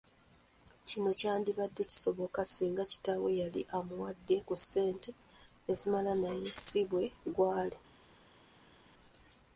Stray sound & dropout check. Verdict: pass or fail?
pass